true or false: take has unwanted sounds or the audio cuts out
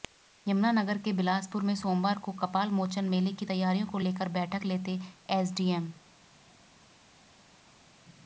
false